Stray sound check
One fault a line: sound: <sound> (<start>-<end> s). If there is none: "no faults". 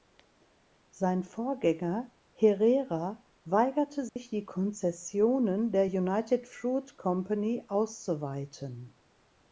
sound: dropout (4.1-4.2 s)